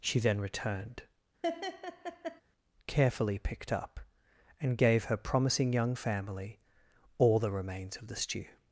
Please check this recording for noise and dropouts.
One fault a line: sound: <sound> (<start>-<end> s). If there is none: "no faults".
sound: laugh (1.4-2.4 s)